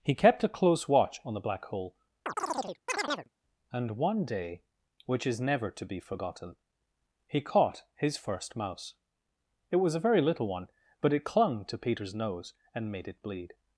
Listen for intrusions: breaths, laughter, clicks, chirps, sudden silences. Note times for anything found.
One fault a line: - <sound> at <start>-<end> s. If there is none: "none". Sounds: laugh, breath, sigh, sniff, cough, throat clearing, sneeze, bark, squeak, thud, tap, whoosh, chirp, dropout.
- chirp at 2.3-3.3 s